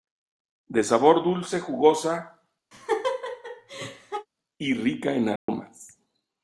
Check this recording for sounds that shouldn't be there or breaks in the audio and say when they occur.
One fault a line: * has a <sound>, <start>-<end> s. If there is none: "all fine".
* has a laugh, 2.7-4.3 s
* has a dropout, 5.4-5.5 s